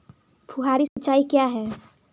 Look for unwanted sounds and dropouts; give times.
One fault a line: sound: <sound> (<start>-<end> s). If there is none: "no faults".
sound: dropout (0.9-1.0 s)